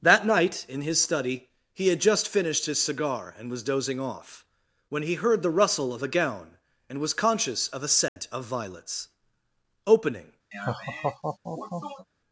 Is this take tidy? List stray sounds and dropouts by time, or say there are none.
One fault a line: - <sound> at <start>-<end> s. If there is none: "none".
- dropout at 8.1-8.2 s
- laugh at 10.5-12.1 s